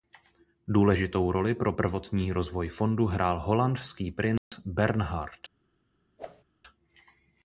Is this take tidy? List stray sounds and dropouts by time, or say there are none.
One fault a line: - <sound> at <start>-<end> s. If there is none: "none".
- dropout at 4.4-4.5 s
- whoosh at 6.2-6.4 s